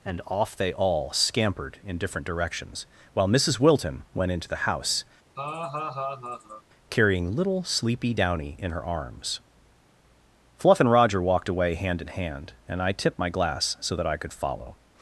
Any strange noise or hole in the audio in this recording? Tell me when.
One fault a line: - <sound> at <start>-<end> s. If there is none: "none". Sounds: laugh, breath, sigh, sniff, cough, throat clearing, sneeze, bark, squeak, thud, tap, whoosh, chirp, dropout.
- laugh at 5.4-6.6 s